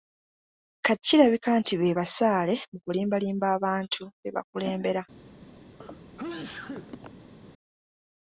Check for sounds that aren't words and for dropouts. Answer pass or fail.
fail